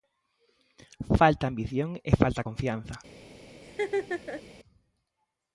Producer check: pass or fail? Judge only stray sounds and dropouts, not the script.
fail